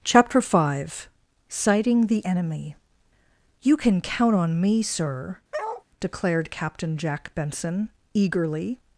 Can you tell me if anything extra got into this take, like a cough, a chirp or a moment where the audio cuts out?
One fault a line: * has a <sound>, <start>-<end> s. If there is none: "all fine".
* has a bark, 5.5-5.8 s